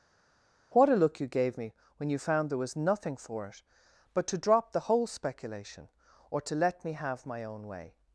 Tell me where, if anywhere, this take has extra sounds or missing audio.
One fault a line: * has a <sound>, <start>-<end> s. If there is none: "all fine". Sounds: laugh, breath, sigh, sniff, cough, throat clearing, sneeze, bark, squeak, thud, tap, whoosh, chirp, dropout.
all fine